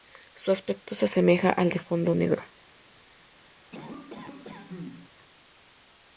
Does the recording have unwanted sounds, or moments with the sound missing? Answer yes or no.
yes